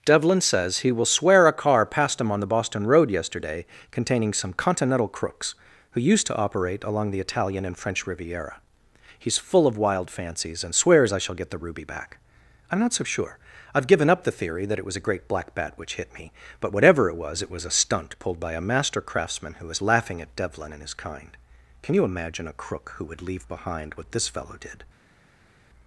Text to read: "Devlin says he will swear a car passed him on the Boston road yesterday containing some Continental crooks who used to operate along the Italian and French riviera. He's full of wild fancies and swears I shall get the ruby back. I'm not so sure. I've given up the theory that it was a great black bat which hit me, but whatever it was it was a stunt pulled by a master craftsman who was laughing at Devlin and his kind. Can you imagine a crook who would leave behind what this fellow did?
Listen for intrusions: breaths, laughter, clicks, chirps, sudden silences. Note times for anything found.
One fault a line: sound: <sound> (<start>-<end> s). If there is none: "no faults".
no faults